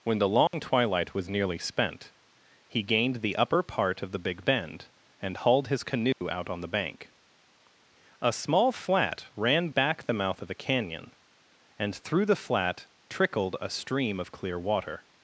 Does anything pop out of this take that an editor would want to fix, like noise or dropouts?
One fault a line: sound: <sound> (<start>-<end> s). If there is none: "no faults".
sound: dropout (0.5-0.5 s)
sound: dropout (6.1-6.2 s)